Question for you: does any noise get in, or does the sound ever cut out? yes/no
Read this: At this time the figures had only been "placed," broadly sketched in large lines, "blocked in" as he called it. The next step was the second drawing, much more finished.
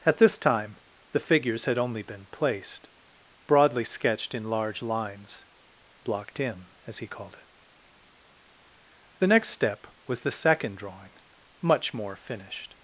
no